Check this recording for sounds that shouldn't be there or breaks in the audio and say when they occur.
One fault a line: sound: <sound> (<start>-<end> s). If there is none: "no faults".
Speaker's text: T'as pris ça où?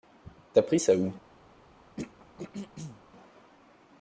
sound: throat clearing (2.0-3.0 s)